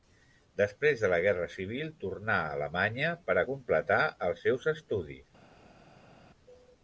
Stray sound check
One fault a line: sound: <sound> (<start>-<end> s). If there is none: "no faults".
no faults